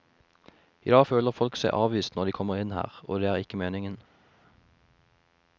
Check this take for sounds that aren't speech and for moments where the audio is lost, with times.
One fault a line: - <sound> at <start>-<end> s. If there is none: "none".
none